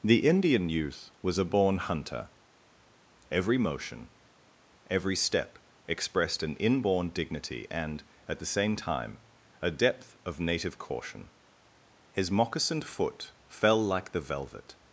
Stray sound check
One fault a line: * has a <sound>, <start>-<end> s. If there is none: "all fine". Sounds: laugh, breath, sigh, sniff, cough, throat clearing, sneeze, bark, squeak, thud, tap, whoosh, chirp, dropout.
all fine